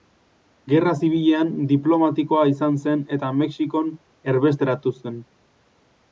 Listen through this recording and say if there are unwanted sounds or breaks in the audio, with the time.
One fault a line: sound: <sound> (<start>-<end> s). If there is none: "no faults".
no faults